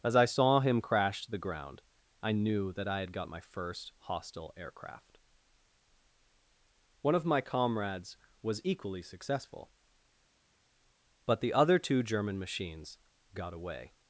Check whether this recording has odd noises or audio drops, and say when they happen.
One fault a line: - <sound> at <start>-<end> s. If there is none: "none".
none